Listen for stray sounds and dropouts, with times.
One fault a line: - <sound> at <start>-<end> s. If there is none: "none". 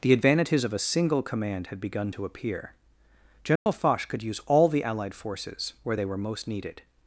- dropout at 3.6-3.7 s